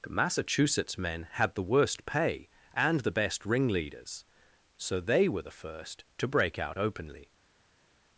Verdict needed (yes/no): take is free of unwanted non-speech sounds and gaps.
yes